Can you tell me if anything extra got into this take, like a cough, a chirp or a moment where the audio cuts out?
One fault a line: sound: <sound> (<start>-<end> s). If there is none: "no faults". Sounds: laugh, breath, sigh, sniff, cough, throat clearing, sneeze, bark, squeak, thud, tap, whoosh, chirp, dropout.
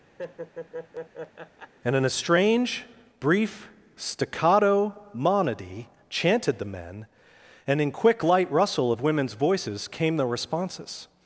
sound: laugh (0.2-1.7 s)